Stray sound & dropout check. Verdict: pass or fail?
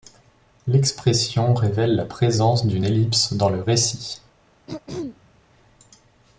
fail